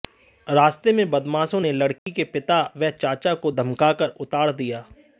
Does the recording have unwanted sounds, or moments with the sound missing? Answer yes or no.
yes